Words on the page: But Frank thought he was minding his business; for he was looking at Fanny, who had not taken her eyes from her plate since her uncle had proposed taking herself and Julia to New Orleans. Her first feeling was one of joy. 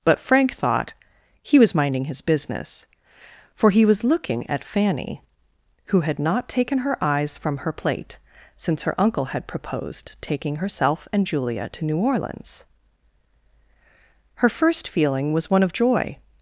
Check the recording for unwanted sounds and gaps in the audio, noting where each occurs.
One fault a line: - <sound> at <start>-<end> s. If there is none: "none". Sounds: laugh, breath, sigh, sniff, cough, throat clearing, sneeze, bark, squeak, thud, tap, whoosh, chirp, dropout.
none